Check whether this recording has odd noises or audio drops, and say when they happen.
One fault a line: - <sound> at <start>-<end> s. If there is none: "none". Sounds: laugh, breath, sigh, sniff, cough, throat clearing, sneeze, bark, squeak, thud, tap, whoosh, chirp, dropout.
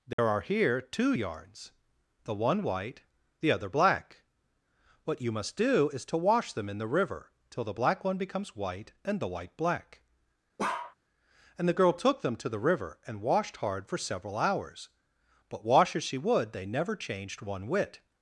- dropout at 0.1-0.2 s
- bark at 10.6-11.0 s